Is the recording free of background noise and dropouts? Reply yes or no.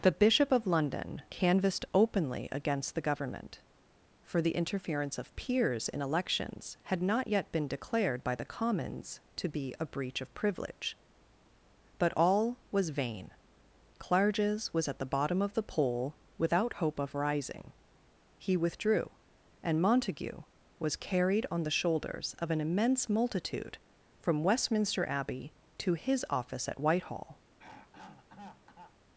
no